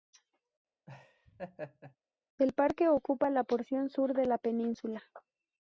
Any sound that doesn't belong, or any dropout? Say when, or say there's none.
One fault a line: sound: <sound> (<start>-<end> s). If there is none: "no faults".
sound: laugh (0.9-2.0 s)